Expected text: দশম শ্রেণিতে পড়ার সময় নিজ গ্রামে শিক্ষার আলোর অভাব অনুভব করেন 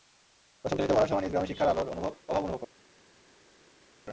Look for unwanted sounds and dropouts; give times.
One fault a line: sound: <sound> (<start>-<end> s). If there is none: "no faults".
no faults